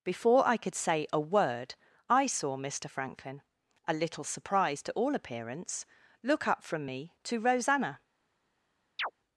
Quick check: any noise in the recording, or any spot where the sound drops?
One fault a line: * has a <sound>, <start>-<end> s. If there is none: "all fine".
* has a chirp, 9.0-9.1 s